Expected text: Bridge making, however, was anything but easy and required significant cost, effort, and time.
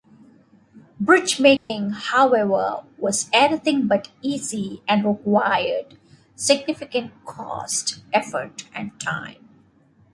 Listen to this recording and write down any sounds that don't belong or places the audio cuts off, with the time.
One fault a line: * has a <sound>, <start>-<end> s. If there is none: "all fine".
* has a dropout, 1.6-1.7 s